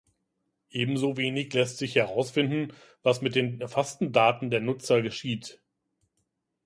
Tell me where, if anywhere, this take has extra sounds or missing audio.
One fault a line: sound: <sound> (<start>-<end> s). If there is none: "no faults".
no faults